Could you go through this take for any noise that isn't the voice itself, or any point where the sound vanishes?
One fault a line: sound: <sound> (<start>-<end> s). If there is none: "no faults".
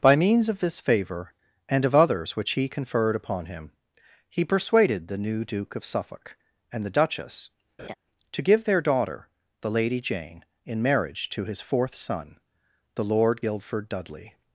sound: laugh (7.8-8.0 s)